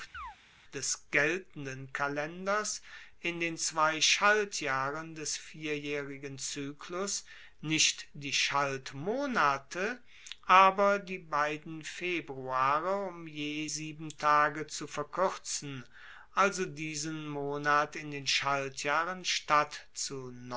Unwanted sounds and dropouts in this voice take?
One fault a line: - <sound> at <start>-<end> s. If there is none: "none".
- chirp at 0.1-0.4 s